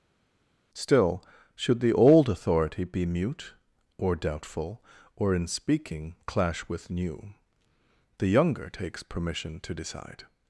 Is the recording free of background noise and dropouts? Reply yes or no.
yes